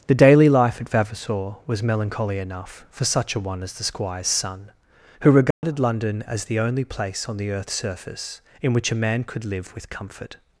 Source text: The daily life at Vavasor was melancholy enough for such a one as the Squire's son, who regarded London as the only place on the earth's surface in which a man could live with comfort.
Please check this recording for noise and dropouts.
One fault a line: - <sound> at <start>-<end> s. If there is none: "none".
- dropout at 5.5-5.6 s